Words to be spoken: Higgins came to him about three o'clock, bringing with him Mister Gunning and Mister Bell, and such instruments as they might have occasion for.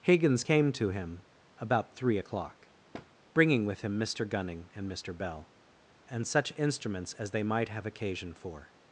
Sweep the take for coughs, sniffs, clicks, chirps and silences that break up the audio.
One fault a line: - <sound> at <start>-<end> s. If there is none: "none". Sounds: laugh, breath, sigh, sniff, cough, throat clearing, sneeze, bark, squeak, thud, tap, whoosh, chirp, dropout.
- thud at 2.9-3.1 s